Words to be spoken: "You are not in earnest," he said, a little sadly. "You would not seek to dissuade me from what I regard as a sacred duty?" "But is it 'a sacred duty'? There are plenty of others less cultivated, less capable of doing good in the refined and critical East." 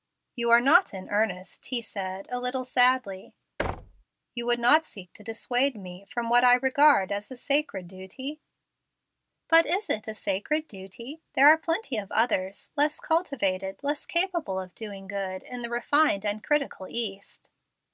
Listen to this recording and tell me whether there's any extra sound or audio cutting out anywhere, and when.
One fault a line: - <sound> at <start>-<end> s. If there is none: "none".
- thud at 3.6-4.0 s